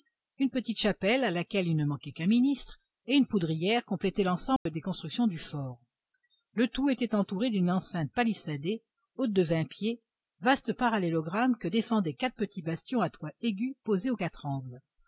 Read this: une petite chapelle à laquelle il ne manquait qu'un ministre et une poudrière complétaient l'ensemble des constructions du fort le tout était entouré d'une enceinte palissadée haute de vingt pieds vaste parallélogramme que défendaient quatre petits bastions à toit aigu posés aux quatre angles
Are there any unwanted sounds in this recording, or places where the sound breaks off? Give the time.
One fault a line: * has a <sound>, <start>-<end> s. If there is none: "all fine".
* has a dropout, 4.6-4.7 s